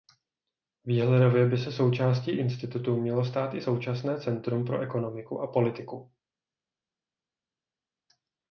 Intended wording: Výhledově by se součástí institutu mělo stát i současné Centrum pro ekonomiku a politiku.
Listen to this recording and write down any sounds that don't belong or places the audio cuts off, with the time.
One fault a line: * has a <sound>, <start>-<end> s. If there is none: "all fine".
all fine